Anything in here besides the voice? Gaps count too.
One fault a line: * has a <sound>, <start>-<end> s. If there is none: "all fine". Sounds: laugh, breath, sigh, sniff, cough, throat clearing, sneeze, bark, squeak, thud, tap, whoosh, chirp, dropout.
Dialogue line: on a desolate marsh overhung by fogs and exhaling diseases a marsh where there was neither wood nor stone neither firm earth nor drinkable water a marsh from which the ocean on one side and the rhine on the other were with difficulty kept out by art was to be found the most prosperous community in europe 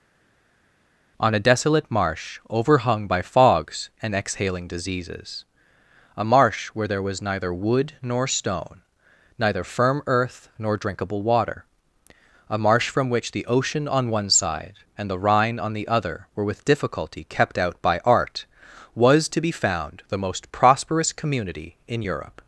all fine